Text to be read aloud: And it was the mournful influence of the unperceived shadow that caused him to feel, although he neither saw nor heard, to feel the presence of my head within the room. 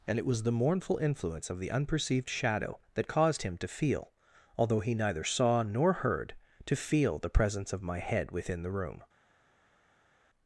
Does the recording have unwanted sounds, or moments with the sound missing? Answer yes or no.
no